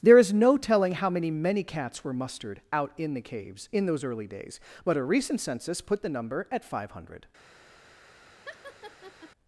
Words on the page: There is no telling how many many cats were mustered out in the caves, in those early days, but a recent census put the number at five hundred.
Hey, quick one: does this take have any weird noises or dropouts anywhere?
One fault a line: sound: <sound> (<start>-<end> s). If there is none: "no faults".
sound: laugh (8.5-9.3 s)